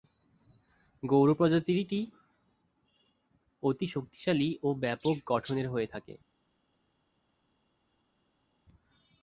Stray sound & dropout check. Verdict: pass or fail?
pass